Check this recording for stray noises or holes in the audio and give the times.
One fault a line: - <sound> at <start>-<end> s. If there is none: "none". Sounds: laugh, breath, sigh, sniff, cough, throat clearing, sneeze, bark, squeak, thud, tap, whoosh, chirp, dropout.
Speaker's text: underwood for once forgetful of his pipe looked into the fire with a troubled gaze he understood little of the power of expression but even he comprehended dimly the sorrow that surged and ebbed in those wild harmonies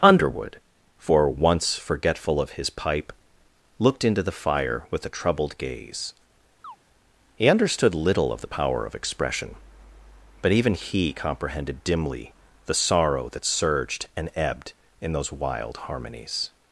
- chirp at 6.6-6.8 s